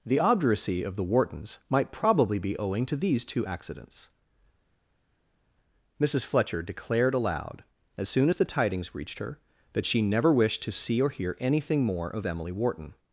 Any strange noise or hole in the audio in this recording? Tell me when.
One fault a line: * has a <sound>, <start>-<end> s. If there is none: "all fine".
all fine